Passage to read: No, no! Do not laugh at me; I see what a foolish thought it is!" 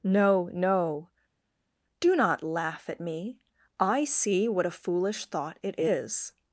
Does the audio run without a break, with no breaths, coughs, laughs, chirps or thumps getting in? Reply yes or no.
yes